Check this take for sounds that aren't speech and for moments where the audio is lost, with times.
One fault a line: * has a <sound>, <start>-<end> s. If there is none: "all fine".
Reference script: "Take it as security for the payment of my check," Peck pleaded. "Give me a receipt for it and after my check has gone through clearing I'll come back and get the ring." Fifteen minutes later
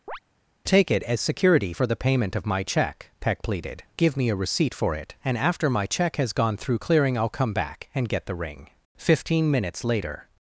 * has a chirp, 0.1-0.2 s